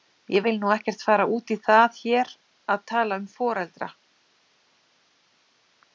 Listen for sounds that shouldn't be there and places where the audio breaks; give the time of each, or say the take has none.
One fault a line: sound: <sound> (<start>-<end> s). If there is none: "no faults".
no faults